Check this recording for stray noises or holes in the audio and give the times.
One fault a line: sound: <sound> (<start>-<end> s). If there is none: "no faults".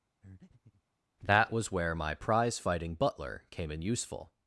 sound: breath (0.2-0.8 s)